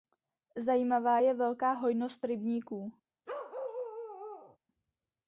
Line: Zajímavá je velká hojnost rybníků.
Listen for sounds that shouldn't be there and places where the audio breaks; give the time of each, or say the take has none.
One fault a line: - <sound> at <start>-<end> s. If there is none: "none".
- bark at 3.3-4.6 s